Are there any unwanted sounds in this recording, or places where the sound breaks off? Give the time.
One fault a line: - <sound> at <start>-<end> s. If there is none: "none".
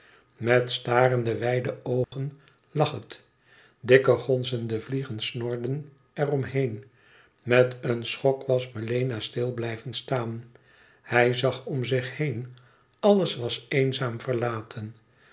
- dropout at 2.0-2.1 s